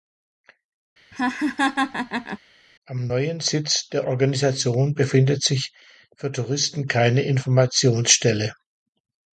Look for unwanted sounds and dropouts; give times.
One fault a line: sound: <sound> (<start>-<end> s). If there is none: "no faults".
sound: laugh (1.1-2.4 s)